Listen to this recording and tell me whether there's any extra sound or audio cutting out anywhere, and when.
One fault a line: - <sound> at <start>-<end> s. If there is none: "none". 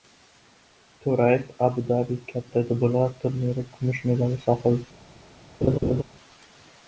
- laugh at 5.6-6.0 s